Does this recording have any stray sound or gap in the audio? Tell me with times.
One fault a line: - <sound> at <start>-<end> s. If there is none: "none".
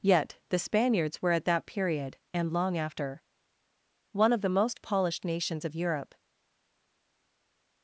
none